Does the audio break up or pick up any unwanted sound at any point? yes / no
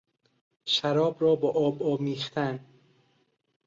no